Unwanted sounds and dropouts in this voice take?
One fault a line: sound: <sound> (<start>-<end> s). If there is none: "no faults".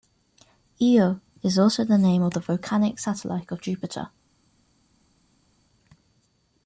no faults